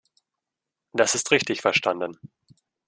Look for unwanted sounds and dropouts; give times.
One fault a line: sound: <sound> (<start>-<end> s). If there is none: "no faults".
no faults